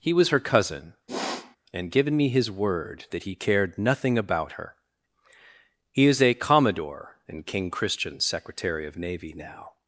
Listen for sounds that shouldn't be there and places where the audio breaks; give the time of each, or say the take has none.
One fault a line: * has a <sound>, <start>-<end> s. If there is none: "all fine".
* has a sniff, 1.1-1.6 s